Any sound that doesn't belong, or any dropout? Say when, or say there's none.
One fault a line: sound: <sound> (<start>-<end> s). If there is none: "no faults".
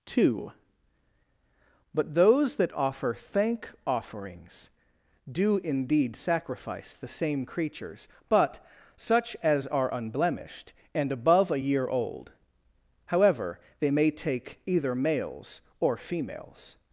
no faults